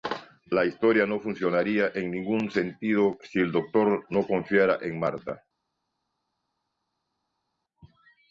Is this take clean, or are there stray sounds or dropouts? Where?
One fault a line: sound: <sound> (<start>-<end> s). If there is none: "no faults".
no faults